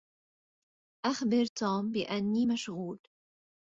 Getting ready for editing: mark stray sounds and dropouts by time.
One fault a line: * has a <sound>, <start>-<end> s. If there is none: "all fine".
all fine